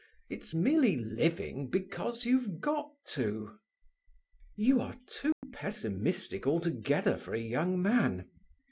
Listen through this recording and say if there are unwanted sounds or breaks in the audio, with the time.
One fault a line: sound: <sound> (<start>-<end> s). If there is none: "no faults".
sound: dropout (5.3-5.4 s)